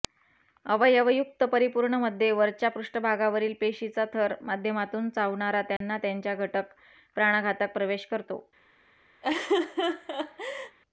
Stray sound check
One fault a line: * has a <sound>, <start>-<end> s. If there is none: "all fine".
* has a dropout, 5.8-5.8 s
* has a laugh, 9.2-10.8 s